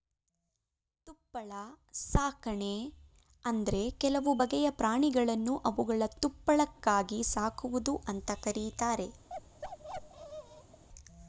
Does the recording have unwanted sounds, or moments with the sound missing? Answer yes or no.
yes